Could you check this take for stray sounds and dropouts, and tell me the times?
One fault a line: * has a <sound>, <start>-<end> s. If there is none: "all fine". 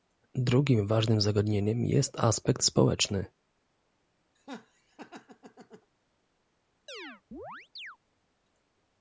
* has a laugh, 4.4-5.9 s
* has a chirp, 6.9-8.0 s